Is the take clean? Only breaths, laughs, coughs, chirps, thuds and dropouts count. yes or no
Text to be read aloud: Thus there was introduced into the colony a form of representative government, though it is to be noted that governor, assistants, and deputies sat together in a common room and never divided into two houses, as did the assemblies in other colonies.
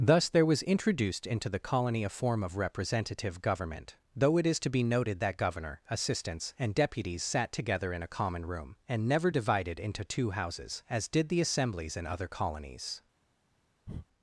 no